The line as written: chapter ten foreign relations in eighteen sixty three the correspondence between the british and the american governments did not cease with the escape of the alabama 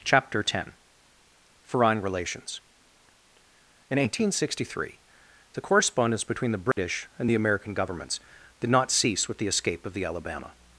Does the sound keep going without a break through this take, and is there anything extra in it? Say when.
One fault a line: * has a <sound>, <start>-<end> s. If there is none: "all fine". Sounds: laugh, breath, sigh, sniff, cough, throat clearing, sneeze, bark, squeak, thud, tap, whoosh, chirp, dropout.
* has a dropout, 6.7-6.8 s